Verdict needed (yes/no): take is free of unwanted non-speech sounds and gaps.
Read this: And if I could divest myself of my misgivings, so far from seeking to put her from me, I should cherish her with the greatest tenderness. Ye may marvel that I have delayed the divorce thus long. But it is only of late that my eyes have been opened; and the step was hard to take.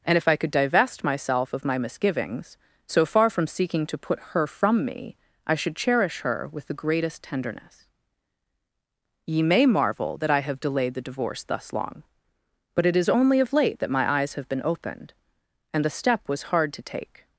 yes